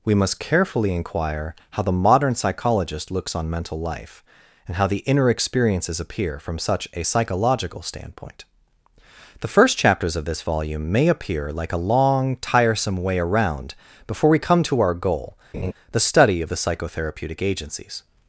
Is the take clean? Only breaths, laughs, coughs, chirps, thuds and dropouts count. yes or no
no